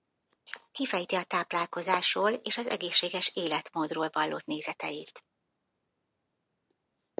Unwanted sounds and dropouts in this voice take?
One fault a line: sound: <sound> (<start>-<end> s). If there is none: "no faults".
no faults